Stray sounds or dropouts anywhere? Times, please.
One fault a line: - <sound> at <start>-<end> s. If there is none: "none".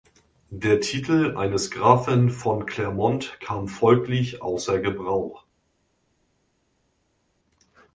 none